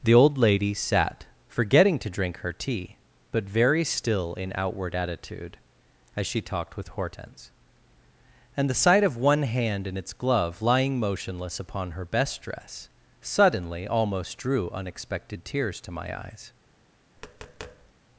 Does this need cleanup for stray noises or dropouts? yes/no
yes